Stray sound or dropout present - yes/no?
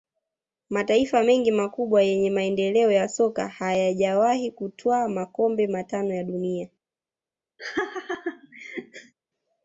yes